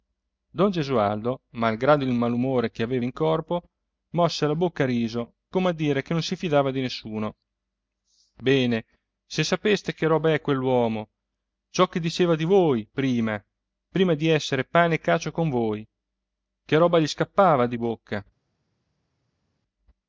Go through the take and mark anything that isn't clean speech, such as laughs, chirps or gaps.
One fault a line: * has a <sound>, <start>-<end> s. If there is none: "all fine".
all fine